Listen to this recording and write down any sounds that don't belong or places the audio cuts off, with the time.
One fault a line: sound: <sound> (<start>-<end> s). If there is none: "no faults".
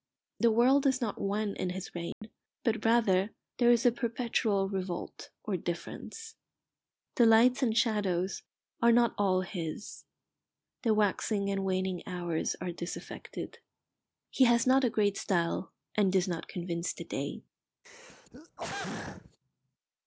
sound: dropout (2.1-2.2 s)
sound: throat clearing (17.8-19.4 s)